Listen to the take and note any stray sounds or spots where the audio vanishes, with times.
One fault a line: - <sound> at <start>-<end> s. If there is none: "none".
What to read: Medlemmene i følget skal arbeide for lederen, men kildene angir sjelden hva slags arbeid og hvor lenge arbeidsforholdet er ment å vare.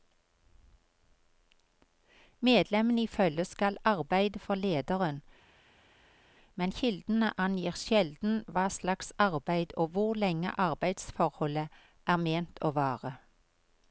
none